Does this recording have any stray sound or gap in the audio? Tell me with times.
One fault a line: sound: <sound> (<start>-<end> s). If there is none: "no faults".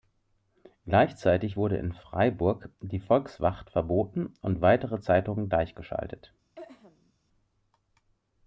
sound: throat clearing (6.5-7.1 s)